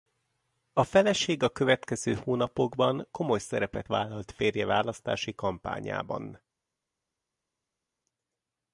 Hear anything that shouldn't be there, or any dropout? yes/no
no